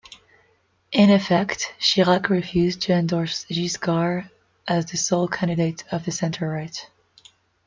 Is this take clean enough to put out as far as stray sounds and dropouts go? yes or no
yes